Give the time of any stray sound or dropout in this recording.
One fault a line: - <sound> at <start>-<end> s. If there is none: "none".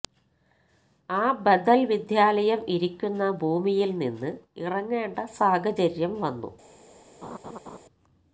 - laugh at 7.2-7.8 s